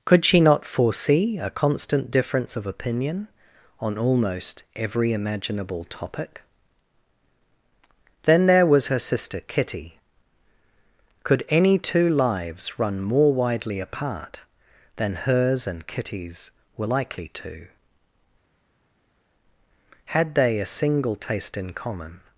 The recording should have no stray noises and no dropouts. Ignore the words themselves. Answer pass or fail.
pass